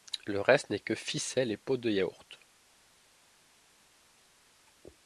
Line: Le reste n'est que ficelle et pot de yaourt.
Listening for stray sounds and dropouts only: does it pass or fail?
pass